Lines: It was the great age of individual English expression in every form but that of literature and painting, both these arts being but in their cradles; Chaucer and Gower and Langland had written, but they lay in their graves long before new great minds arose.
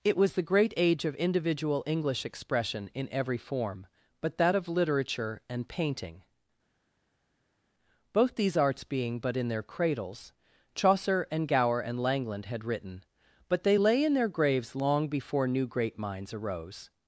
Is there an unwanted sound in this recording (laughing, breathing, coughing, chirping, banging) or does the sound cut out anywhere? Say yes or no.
no